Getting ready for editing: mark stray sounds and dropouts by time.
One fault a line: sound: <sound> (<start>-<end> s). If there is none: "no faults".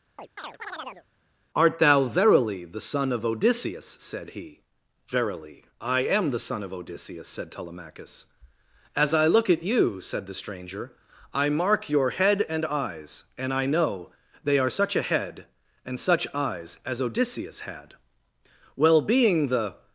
sound: chirp (0.2-1.1 s)